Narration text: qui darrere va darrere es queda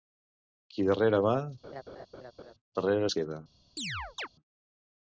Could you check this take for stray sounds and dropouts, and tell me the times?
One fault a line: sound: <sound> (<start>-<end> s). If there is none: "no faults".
sound: laugh (1.6-2.5 s)
sound: chirp (3.8-4.3 s)